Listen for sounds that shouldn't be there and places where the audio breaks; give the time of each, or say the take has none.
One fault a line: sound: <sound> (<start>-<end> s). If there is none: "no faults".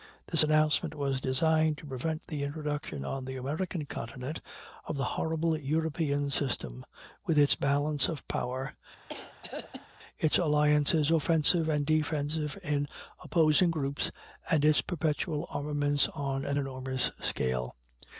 sound: throat clearing (9.1-9.9 s)